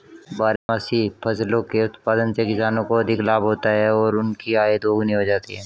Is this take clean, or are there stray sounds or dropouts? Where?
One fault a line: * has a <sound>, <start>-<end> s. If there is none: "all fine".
* has a dropout, 0.6-0.7 s